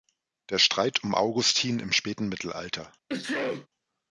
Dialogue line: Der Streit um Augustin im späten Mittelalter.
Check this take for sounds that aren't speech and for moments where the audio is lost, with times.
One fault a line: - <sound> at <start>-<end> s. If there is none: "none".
- sneeze at 3.1-3.7 s